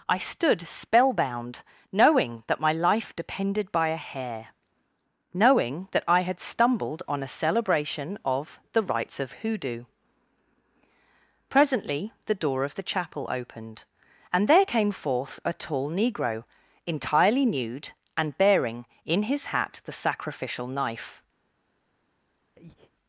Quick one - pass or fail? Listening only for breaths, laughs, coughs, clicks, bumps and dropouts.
fail